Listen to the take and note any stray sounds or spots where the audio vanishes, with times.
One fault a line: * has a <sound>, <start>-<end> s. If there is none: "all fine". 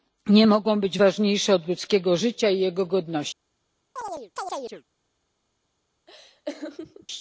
* has a chirp, 4.0-4.8 s
* has a laugh, 6.1-7.1 s